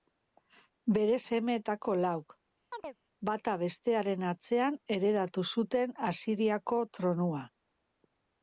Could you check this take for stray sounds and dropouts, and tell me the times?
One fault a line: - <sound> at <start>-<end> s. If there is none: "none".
- chirp at 2.7-3.0 s